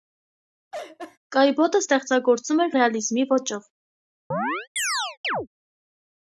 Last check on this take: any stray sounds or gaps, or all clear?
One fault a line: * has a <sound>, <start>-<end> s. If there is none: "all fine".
* has a laugh, 0.7-1.2 s
* has a chirp, 4.3-5.5 s